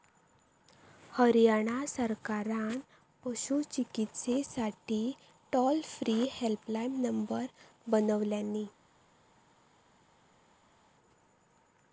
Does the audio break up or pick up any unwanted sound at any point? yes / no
no